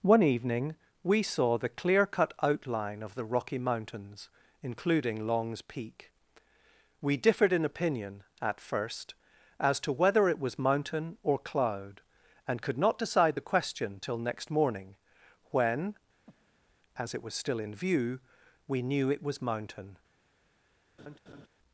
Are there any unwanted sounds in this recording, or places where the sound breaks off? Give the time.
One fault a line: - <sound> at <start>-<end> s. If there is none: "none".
- breath at 16.3-16.8 s
- laugh at 21.0-21.5 s